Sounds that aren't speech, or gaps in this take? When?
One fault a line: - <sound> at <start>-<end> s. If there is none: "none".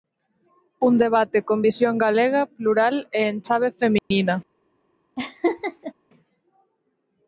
- dropout at 4.0-4.1 s
- laugh at 5.2-5.9 s